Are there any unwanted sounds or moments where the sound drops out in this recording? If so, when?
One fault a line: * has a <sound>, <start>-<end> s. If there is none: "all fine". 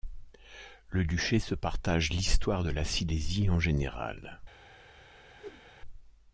* has a whoosh, 5.4-5.6 s